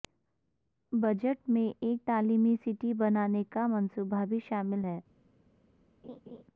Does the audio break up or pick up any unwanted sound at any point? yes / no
yes